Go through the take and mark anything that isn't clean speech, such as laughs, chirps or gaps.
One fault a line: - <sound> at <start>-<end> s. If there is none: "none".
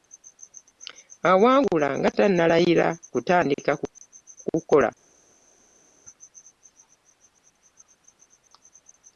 none